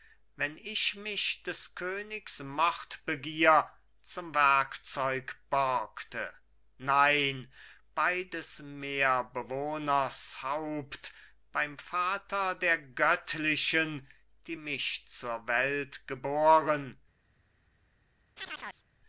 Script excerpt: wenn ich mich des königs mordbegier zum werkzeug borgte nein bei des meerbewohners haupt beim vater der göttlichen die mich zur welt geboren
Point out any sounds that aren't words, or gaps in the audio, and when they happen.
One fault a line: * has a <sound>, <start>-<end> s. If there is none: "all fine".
* has a chirp, 18.4-18.9 s